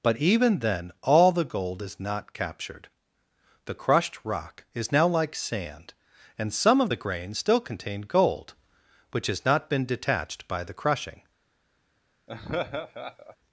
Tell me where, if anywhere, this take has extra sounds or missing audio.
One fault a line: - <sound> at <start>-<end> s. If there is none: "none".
- laugh at 12.3-13.4 s